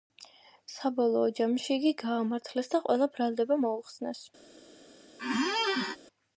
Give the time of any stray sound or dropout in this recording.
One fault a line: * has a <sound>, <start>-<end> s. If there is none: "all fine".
* has a squeak, 5.2-6.0 s